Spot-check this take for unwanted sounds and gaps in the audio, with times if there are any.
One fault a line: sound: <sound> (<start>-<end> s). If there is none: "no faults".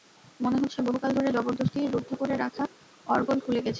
no faults